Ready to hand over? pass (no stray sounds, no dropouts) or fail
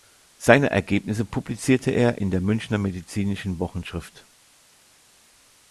pass